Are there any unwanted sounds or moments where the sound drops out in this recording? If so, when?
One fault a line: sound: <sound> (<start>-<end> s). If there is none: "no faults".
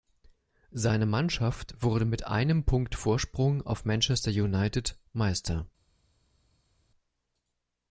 no faults